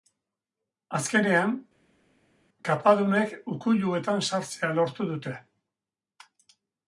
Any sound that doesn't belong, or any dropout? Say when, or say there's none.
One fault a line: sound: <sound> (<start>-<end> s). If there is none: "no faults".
no faults